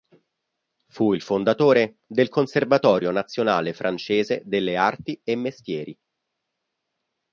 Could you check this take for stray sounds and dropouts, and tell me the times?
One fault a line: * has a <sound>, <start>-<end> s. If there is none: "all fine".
all fine